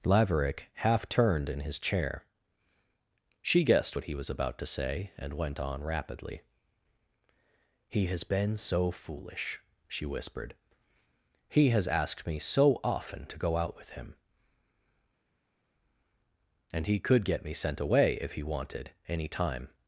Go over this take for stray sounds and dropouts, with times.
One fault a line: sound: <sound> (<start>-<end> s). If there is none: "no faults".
no faults